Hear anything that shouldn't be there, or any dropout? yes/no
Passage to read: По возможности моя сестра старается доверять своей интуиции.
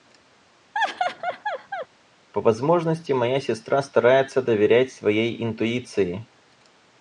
yes